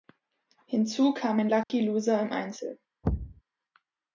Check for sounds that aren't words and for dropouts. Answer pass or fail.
fail